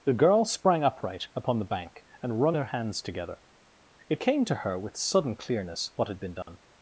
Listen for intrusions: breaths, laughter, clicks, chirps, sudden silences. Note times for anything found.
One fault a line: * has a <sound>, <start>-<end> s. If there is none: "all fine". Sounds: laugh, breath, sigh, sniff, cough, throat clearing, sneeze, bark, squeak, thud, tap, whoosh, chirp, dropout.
* has a dropout, 6.4-6.5 s